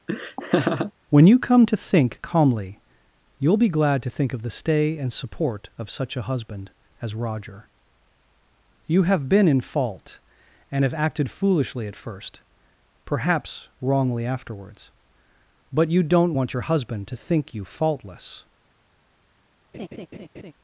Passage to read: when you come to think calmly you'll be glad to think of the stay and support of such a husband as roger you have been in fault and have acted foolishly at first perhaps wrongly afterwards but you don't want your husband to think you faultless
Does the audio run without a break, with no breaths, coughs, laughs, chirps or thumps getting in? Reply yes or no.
no